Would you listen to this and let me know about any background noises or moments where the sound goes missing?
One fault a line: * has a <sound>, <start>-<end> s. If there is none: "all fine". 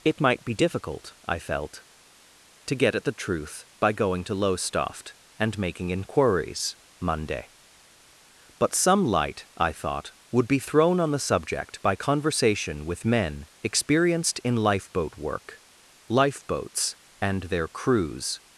all fine